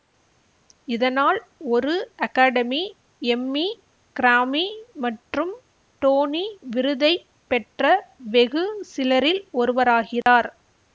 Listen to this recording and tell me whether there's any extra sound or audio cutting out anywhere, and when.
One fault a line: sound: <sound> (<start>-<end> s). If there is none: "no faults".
sound: dropout (10.2-10.3 s)